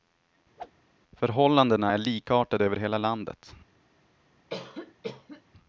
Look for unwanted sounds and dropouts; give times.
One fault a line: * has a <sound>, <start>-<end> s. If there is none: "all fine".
* has a whoosh, 0.6-0.7 s
* has a cough, 4.5-5.4 s